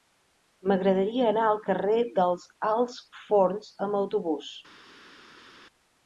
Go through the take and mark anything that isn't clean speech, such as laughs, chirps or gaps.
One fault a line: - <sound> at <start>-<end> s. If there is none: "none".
none